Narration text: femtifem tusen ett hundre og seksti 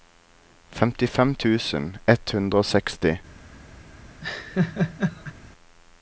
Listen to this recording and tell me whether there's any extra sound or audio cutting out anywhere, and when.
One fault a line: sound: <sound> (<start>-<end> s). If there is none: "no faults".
sound: laugh (4.2-5.3 s)